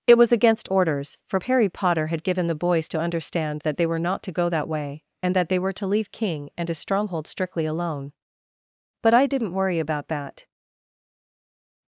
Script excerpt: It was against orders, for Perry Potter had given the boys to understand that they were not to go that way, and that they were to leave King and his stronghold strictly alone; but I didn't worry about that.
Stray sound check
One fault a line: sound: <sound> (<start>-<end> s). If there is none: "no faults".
no faults